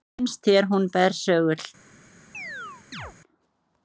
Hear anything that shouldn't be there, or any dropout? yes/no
yes